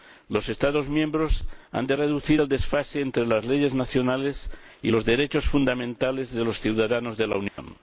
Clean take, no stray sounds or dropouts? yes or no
no